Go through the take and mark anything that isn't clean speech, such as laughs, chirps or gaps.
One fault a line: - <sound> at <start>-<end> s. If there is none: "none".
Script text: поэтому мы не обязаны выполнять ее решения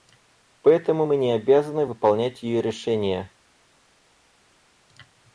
none